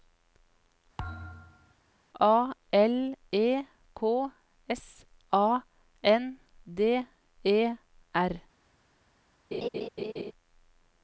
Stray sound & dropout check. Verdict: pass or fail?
fail